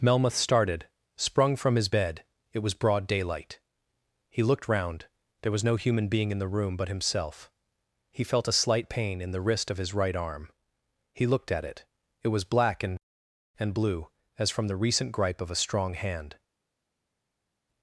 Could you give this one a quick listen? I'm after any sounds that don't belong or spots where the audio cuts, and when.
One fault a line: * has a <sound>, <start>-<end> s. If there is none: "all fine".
all fine